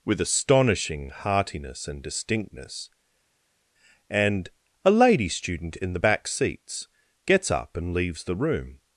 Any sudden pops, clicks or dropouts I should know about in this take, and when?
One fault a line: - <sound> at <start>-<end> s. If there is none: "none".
none